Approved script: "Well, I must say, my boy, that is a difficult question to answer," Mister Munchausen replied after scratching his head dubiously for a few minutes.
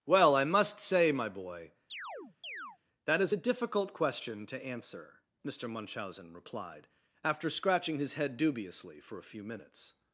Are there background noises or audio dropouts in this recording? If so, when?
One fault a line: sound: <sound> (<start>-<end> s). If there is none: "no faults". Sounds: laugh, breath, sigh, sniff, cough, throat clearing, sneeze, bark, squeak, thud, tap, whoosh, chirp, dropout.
sound: chirp (1.9-2.8 s)